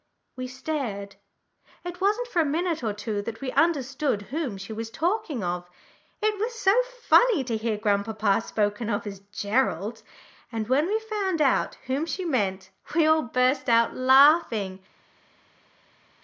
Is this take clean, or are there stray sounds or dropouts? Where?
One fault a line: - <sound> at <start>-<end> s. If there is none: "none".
none